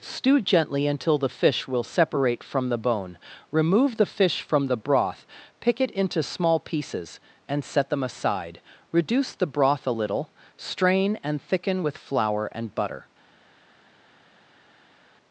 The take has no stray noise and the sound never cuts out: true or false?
true